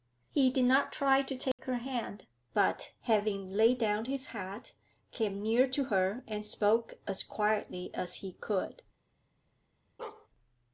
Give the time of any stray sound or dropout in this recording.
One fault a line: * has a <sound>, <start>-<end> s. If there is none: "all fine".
* has a dropout, 1.5-1.6 s
* has a bark, 10.0-10.3 s